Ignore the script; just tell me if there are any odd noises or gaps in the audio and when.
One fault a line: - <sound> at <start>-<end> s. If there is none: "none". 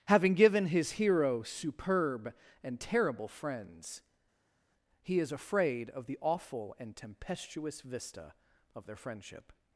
none